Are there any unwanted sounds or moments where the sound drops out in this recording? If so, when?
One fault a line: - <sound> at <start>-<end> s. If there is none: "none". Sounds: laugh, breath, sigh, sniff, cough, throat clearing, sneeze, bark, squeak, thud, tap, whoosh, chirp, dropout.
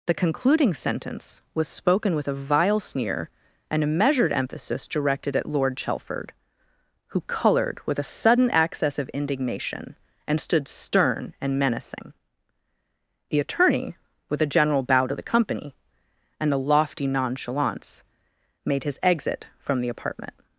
none